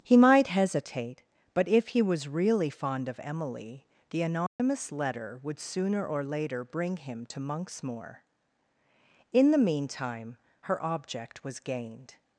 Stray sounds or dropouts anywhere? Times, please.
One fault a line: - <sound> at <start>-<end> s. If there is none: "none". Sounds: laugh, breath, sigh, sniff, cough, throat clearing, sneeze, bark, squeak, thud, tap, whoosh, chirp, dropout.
- dropout at 4.5-4.6 s